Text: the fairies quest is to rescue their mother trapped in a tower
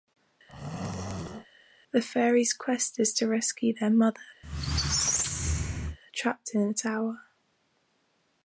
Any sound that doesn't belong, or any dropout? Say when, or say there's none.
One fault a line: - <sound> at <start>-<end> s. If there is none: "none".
- throat clearing at 0.5-1.5 s
- squeak at 4.4-6.0 s